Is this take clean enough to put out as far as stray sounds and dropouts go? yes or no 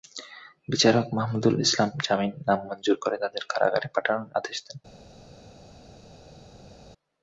yes